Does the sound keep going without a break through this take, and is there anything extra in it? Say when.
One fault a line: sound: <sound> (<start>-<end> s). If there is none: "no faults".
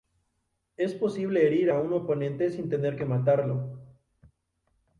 no faults